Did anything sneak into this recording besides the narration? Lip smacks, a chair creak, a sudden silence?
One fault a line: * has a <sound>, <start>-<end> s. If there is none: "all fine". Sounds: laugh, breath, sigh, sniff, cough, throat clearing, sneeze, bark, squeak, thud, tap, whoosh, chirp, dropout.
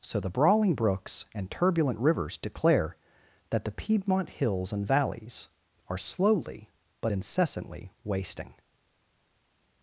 all fine